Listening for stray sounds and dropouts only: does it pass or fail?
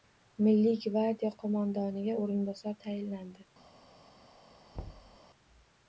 fail